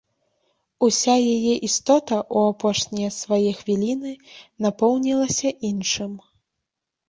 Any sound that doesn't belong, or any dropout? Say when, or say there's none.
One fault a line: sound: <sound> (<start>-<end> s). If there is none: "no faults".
no faults